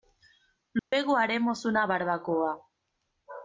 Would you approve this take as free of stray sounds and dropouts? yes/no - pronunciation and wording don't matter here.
no